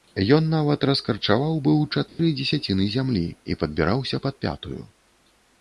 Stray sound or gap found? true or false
true